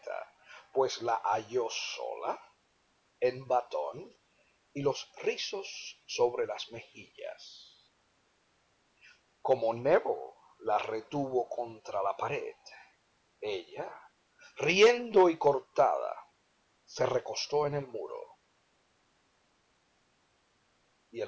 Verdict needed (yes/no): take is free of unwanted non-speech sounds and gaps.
yes